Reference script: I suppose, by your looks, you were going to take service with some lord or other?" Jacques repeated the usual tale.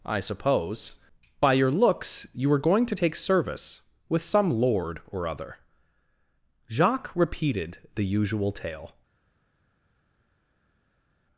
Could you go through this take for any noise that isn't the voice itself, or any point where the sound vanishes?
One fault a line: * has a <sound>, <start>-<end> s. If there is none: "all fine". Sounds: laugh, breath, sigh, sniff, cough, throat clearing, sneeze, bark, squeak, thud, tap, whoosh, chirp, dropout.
all fine